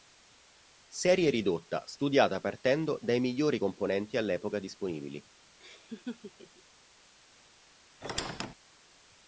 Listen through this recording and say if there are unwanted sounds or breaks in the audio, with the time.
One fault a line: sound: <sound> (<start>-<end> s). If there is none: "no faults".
sound: laugh (5.6-6.6 s)
sound: squeak (8.0-8.5 s)